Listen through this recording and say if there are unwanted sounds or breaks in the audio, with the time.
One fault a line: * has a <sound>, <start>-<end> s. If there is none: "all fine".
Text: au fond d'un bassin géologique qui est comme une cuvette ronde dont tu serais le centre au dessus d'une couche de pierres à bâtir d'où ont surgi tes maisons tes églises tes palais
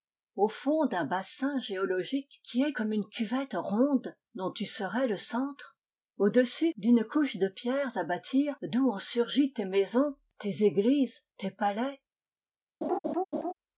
* has a laugh, 12.8-13.5 s